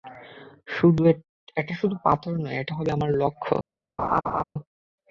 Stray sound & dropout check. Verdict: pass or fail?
fail